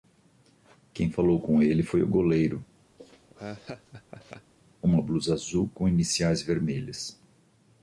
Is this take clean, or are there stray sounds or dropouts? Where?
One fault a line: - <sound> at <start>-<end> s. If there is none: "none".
- laugh at 3.0-4.5 s